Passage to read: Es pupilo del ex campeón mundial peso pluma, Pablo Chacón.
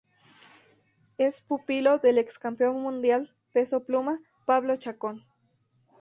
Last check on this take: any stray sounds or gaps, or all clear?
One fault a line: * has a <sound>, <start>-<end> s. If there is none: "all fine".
all fine